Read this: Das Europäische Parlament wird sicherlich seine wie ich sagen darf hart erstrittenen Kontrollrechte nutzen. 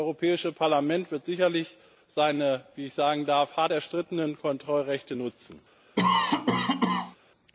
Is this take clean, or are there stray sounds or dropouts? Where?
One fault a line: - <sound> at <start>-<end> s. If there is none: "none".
- cough at 6.0-7.2 s